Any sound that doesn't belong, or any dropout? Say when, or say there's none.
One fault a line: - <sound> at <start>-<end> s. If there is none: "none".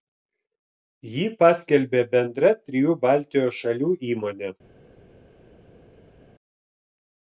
none